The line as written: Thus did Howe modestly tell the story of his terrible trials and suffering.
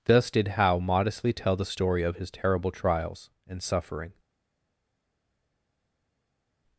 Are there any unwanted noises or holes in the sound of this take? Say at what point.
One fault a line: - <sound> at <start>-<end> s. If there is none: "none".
none